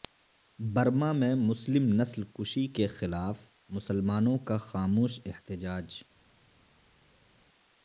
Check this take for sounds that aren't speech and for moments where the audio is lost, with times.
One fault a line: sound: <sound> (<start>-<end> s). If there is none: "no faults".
no faults